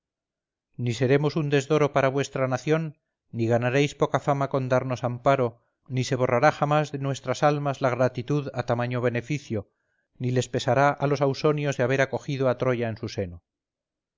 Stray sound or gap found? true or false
false